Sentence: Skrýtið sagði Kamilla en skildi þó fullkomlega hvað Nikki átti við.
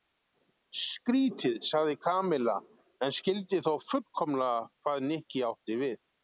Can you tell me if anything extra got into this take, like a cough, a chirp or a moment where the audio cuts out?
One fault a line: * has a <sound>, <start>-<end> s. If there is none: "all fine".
all fine